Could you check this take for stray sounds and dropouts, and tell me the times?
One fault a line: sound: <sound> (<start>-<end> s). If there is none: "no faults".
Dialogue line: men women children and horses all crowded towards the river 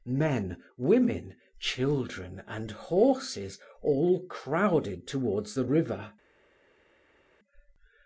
no faults